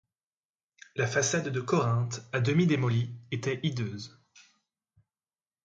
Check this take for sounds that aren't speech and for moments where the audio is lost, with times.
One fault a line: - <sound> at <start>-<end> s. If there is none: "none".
none